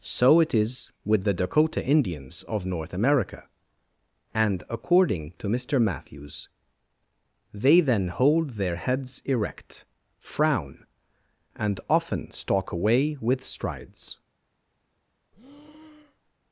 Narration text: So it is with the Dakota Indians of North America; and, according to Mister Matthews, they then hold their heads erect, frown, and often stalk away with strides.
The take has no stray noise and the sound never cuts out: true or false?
false